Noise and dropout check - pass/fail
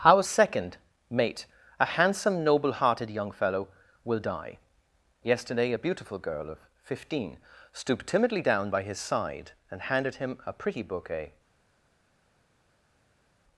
pass